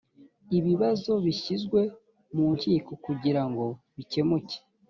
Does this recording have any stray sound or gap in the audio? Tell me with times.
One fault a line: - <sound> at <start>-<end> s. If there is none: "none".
none